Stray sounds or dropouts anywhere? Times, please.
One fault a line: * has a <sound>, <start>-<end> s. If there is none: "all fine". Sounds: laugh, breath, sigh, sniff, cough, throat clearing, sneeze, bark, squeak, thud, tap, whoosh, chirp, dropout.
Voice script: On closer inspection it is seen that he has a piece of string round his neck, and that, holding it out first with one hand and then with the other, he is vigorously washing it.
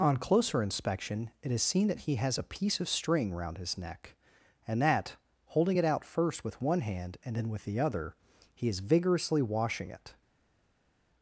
all fine